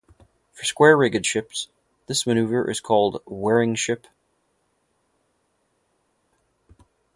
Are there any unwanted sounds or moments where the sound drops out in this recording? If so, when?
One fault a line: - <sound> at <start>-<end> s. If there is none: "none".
none